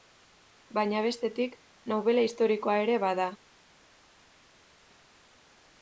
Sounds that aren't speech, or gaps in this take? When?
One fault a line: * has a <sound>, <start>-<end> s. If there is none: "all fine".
all fine